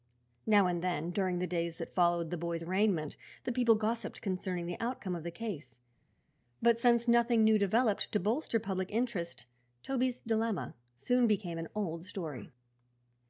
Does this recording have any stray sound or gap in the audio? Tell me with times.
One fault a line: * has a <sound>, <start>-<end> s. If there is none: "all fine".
all fine